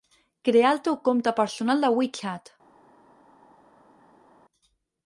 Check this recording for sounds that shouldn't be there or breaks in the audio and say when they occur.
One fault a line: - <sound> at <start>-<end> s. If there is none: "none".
none